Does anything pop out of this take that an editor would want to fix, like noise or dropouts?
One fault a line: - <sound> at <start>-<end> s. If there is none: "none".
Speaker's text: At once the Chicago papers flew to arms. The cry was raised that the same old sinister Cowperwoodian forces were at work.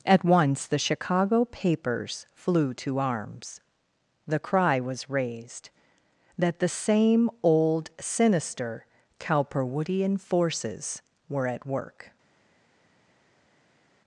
none